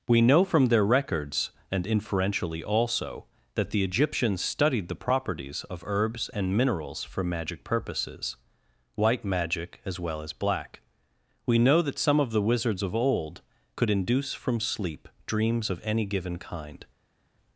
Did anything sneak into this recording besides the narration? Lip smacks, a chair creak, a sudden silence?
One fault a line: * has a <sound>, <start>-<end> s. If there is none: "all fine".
all fine